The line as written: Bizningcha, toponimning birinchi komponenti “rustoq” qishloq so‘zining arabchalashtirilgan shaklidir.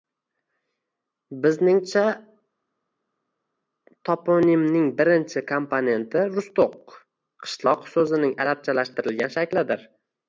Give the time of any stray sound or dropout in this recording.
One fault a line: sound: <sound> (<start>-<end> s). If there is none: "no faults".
no faults